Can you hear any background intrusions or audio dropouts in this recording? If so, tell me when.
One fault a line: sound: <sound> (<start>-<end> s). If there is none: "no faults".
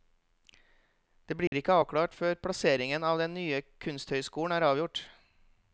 sound: dropout (1.5-1.5 s)